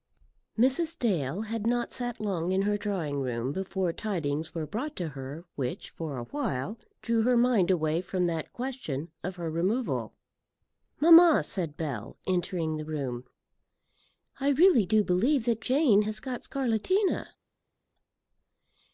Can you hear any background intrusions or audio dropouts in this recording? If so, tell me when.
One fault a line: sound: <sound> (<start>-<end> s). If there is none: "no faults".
no faults